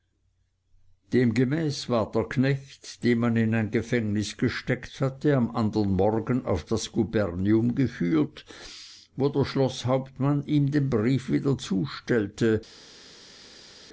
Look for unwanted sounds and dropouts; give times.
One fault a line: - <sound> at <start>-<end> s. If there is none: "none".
none